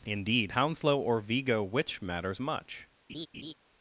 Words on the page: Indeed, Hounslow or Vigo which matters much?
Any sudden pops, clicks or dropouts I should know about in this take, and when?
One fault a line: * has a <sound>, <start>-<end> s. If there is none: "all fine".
* has a laugh, 3.1-3.5 s